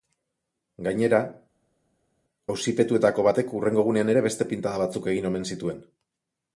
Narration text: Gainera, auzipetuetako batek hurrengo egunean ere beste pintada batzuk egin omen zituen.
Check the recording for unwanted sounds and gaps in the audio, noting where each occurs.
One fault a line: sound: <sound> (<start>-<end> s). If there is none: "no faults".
no faults